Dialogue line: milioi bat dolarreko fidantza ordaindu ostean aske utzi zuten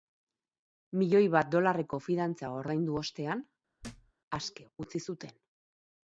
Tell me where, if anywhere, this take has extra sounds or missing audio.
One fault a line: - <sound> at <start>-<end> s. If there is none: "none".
- thud at 3.8-4.1 s